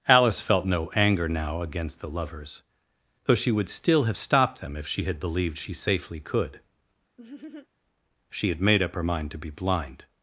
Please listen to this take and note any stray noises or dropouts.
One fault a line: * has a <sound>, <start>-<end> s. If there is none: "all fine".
* has a laugh, 7.2-7.7 s